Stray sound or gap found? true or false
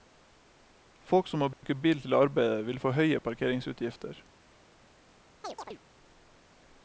true